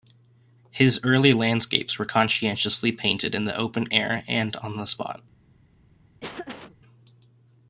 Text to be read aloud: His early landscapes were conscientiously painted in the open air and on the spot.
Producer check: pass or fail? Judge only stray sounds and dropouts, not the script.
fail